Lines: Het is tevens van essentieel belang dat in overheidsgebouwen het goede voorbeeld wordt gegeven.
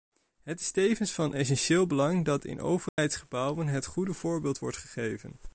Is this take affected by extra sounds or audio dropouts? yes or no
yes